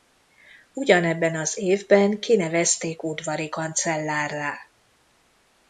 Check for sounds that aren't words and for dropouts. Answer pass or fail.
pass